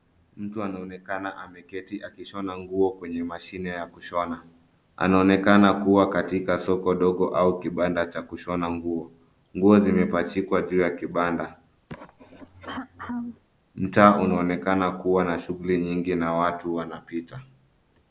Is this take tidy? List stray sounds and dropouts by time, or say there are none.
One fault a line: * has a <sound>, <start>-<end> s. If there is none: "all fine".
* has a throat clearing, 11.9-13.4 s